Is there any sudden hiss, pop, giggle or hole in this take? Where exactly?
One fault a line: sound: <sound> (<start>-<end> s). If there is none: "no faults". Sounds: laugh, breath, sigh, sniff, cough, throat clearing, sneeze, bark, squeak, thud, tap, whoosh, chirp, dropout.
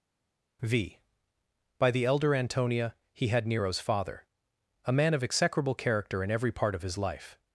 no faults